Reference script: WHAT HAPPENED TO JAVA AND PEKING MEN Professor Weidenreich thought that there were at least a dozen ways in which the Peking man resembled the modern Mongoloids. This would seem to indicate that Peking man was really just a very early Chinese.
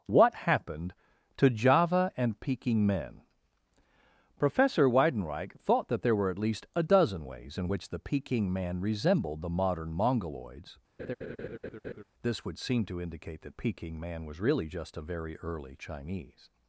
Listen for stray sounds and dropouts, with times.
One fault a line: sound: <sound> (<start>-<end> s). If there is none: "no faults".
sound: laugh (11.0-12.0 s)